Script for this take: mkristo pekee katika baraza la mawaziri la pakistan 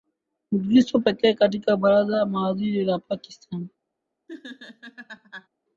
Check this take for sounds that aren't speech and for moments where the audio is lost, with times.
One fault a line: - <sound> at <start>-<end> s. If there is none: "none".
- laugh at 4.3-5.5 s